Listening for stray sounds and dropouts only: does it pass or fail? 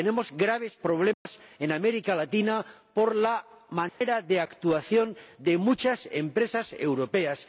fail